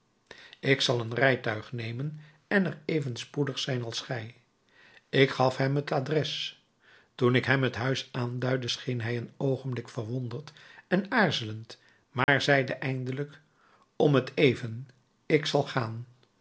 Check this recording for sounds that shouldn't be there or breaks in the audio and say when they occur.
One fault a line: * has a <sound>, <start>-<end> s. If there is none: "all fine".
* has a dropout, 12.2-12.3 s